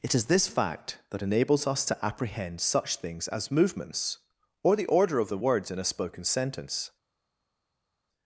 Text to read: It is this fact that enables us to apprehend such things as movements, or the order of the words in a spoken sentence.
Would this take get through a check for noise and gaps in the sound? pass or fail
pass